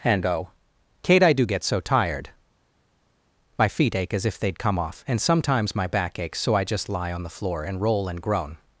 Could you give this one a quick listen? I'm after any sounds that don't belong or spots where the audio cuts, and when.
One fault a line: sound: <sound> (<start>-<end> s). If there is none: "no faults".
no faults